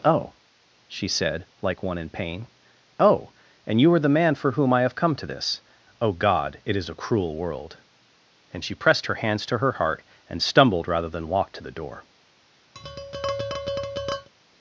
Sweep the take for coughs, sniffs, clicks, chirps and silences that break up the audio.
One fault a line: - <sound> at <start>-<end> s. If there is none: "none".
- tap at 12.7-14.3 s